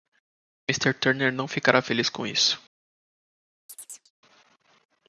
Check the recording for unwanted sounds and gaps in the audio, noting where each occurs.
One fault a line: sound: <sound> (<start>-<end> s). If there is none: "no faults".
sound: chirp (3.7-4.1 s)